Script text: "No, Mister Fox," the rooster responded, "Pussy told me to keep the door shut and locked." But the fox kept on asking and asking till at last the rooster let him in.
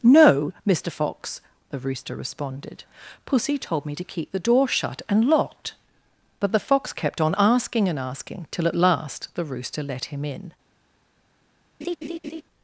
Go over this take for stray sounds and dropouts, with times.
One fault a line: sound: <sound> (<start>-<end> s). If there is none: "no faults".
sound: laugh (11.8-12.4 s)